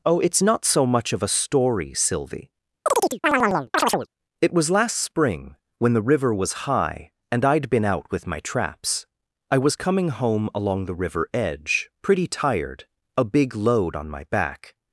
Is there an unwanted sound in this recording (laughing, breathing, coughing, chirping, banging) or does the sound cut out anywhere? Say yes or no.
yes